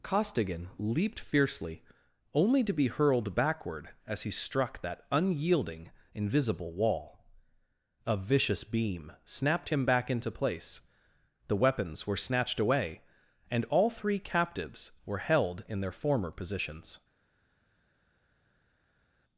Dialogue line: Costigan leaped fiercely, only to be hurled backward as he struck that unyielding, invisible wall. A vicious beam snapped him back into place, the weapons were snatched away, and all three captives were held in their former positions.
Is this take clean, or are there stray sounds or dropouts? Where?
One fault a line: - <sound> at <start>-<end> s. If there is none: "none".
none